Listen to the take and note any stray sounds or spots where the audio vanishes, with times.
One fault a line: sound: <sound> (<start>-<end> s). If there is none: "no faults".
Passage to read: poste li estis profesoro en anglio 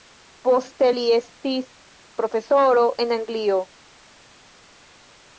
no faults